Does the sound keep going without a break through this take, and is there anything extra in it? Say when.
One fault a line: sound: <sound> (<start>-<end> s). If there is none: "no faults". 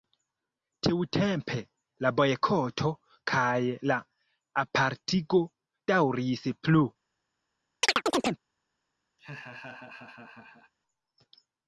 sound: chirp (7.8-8.4 s)
sound: laugh (9.2-10.7 s)